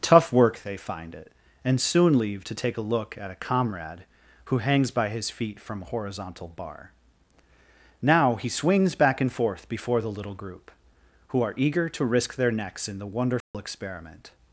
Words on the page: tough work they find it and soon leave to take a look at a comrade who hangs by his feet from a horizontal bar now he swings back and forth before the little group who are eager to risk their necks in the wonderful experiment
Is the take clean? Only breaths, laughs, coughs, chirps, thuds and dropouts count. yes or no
no